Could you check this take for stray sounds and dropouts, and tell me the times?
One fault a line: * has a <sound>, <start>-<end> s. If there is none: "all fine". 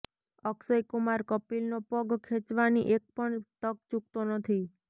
all fine